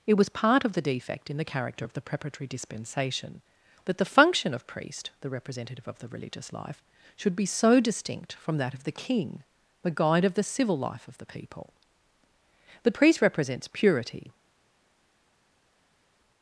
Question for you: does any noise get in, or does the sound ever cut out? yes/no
no